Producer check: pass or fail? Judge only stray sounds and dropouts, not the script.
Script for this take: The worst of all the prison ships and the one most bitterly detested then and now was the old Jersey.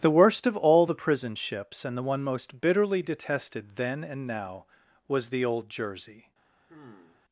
fail